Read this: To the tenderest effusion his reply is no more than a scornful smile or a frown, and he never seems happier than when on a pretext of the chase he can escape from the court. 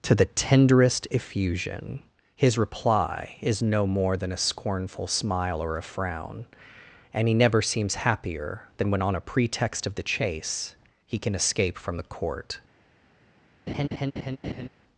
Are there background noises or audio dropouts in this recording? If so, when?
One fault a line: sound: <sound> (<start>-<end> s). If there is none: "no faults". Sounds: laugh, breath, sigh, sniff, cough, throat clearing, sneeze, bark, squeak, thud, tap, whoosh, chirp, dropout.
sound: laugh (13.7-14.7 s)